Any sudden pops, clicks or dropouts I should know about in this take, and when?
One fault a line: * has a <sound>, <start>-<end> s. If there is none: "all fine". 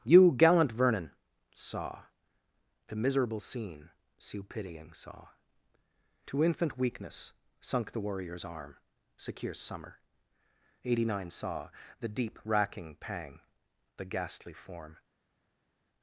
all fine